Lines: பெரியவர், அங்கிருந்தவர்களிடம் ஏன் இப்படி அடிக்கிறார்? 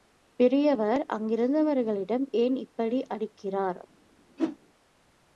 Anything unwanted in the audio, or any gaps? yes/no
yes